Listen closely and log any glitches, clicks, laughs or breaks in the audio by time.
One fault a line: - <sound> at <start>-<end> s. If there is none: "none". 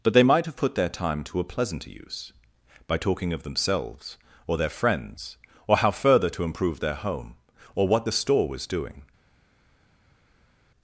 none